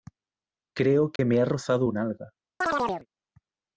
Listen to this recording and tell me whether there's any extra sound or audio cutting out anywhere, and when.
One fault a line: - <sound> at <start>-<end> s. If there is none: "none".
- dropout at 1.2-1.2 s
- chirp at 2.6-3.1 s